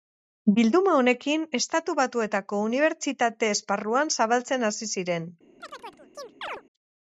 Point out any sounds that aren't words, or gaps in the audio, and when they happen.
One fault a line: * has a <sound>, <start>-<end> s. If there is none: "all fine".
* has a chirp, 5.6-6.6 s